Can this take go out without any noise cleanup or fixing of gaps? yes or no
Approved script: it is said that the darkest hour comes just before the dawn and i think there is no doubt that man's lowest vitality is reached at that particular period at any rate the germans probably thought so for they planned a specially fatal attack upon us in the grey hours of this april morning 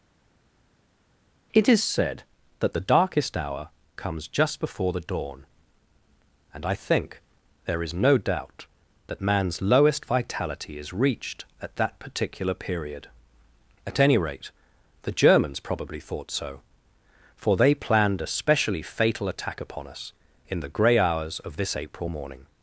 yes